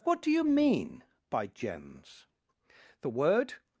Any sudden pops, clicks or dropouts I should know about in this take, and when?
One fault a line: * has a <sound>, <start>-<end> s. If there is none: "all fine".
all fine